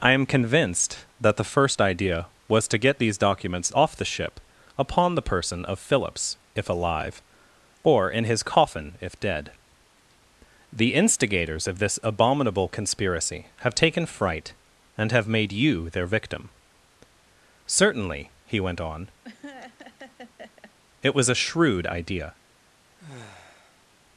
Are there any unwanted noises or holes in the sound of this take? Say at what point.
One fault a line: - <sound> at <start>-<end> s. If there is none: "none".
- laugh at 19.2-20.7 s
- sigh at 23.0-23.9 s